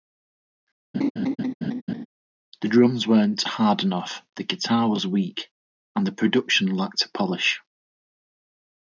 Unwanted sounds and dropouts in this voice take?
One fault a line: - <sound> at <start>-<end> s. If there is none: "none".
- laugh at 0.9-2.1 s